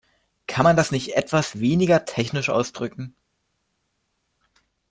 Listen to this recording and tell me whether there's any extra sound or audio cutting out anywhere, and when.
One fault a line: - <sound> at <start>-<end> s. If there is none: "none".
none